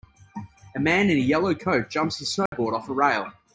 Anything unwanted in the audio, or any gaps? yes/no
yes